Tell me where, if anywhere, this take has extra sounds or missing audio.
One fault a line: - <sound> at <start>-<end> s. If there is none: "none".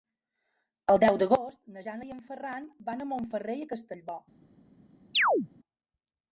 - chirp at 5.1-5.5 s